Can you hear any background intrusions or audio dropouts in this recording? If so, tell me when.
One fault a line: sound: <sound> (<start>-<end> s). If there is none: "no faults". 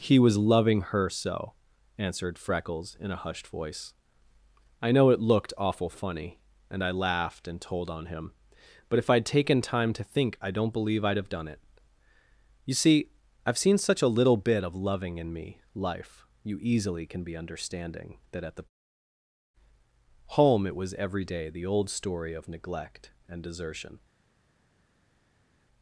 no faults